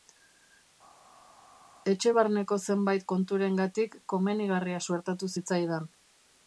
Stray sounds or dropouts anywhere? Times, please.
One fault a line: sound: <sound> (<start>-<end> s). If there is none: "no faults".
no faults